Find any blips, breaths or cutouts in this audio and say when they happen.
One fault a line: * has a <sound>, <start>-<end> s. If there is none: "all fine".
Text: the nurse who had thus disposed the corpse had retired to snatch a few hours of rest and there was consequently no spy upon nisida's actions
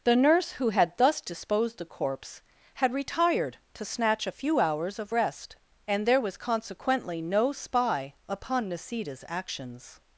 all fine